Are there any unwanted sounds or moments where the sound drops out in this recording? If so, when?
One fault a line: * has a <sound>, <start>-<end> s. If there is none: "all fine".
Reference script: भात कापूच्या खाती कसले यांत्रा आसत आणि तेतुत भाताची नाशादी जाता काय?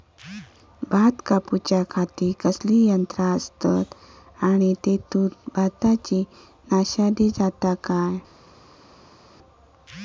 all fine